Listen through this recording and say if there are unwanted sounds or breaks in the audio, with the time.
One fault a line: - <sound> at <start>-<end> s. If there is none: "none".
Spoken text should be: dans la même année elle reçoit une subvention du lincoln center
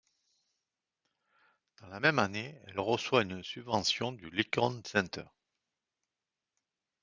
none